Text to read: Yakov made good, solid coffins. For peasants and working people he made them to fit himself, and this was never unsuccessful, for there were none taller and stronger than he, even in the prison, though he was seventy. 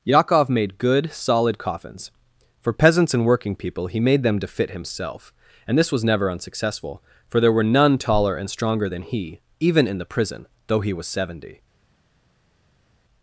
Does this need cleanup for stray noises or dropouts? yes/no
no